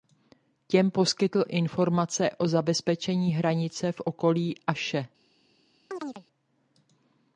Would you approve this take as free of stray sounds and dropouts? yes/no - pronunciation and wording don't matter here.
no